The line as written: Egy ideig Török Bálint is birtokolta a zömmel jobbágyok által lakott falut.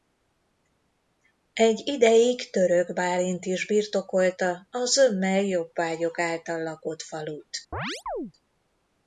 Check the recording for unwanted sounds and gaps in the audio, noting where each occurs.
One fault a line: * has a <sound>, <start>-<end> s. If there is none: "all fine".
* has a chirp, 7.7-8.3 s